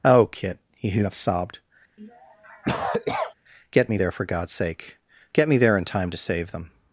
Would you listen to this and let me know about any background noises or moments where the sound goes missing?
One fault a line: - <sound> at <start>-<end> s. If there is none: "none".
- cough at 2.0-3.3 s